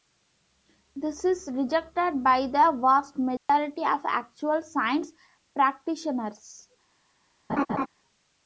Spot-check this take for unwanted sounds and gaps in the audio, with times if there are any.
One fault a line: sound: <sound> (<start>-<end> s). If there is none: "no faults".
sound: dropout (3.4-3.5 s)
sound: laugh (7.5-7.9 s)